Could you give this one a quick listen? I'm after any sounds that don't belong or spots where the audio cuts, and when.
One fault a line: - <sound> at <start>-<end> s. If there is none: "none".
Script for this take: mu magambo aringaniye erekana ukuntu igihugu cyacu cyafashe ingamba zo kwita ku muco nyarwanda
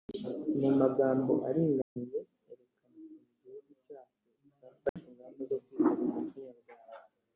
- dropout at 1.8-2.0 s
- dropout at 4.9-5.0 s